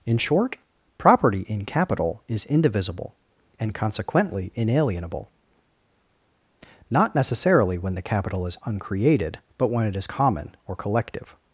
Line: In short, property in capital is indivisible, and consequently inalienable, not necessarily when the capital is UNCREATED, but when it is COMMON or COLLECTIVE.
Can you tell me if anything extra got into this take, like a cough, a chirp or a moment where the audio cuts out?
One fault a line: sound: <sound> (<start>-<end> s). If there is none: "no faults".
no faults